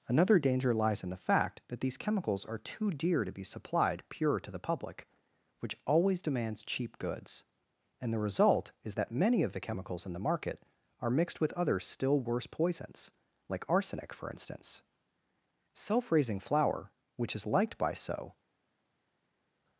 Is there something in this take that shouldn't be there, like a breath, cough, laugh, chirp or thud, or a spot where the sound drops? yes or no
no